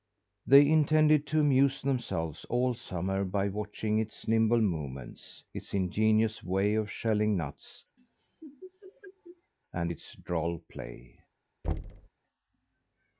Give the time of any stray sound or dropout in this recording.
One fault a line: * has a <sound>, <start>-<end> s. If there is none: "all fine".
* has a laugh, 8.0-9.5 s
* has a thud, 11.6-12.1 s